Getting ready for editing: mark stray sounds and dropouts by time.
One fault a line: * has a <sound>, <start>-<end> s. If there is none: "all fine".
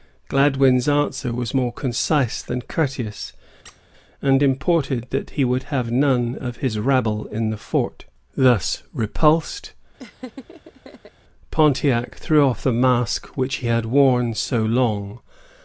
* has a squeak, 3.6-3.8 s
* has a laugh, 10.0-11.1 s